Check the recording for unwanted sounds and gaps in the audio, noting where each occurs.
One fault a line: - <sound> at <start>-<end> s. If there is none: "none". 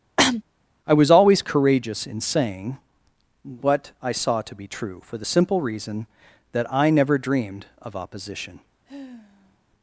- cough at 0.2-0.4 s
- sigh at 8.9-9.6 s